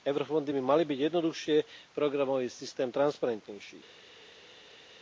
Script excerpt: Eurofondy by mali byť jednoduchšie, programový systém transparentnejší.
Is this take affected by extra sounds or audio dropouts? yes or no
no